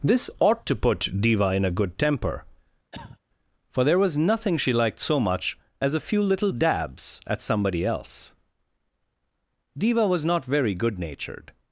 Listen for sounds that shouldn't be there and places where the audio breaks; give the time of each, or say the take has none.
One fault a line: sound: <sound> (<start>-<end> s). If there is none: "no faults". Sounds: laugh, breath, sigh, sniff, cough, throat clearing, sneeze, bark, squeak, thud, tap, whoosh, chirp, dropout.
sound: cough (2.9-3.2 s)